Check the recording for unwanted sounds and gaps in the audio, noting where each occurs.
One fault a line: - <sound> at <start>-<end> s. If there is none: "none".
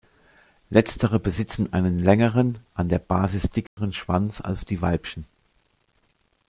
- dropout at 3.7-3.8 s